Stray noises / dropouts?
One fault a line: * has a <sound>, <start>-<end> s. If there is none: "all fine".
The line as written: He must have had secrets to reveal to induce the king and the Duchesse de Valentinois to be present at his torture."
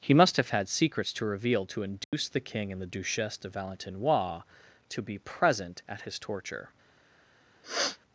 * has a dropout, 2.0-2.1 s
* has a sniff, 7.6-8.0 s